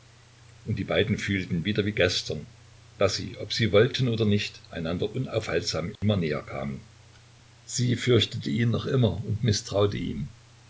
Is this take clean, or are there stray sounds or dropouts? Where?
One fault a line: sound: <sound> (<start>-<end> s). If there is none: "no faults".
sound: dropout (6.0-6.0 s)